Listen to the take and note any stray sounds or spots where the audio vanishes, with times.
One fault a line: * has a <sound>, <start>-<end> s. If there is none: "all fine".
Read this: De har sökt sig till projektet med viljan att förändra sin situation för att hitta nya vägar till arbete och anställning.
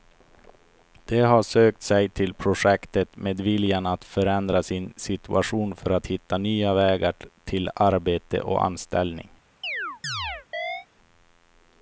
* has a chirp, 9.6-10.9 s